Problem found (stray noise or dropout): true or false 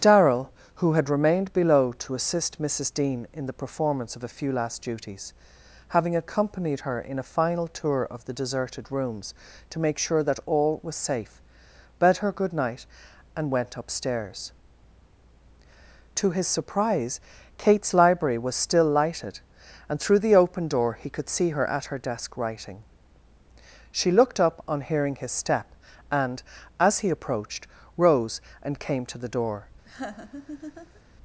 true